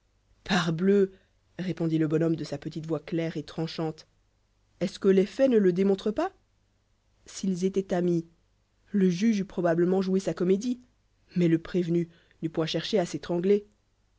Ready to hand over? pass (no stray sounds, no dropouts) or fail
pass